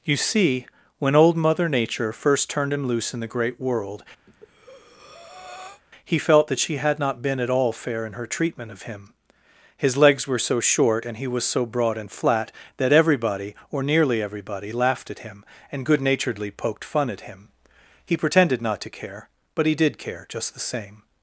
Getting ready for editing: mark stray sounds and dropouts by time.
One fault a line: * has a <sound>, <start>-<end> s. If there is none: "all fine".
* has a breath, 4.3-5.8 s